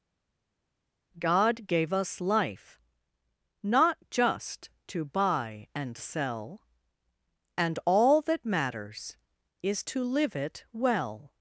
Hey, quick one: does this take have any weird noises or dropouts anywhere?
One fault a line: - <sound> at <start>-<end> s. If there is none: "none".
none